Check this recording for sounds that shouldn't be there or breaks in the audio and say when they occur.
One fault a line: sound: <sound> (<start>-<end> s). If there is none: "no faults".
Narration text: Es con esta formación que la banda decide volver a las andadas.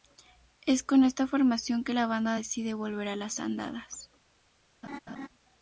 sound: laugh (4.8-5.3 s)